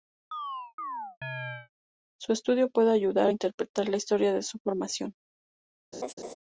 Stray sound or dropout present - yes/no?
yes